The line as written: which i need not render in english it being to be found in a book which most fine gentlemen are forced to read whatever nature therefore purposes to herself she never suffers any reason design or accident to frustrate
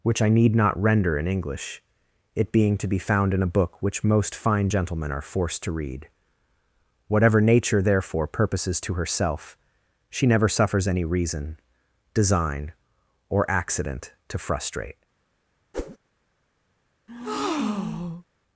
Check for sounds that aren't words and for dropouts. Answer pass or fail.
fail